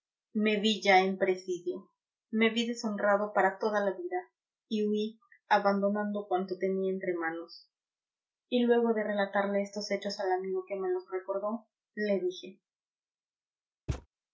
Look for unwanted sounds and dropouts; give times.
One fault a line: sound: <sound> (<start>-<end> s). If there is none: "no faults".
sound: thud (13.9-14.1 s)